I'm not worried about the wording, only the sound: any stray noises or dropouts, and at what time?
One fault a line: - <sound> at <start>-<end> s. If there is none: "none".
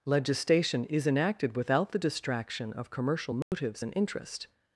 - dropout at 3.4-3.5 s